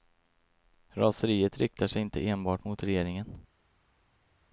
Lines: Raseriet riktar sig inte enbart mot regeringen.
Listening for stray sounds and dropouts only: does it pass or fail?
pass